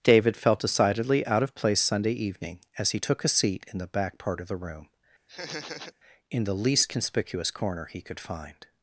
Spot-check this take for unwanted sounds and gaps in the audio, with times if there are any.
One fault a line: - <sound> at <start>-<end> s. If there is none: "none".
- laugh at 5.3-5.9 s